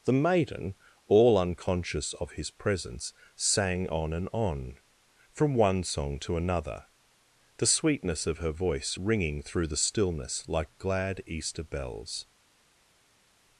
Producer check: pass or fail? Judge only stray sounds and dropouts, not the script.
pass